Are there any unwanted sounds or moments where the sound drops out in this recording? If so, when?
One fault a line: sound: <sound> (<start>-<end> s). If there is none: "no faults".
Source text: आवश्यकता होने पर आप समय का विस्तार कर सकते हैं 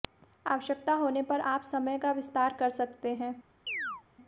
sound: chirp (3.7-4.0 s)